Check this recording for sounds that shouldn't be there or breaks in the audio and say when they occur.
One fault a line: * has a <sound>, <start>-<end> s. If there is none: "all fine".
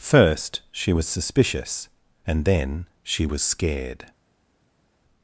all fine